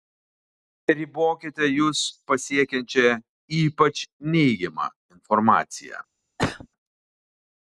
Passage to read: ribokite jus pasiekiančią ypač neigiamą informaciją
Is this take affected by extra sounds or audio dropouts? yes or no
yes